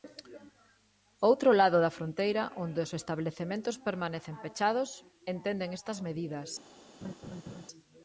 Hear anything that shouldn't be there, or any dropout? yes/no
yes